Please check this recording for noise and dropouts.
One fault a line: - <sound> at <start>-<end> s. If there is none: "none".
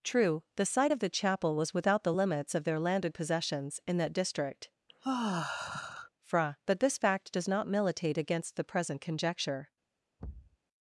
- sigh at 4.9-6.1 s
- thud at 10.2-10.6 s